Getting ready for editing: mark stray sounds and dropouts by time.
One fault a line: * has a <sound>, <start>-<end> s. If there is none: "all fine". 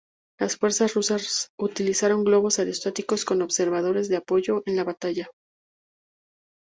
all fine